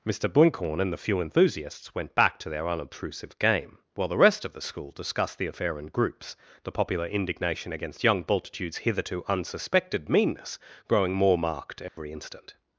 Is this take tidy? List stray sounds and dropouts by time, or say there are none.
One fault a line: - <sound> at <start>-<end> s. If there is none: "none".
- dropout at 11.9-12.0 s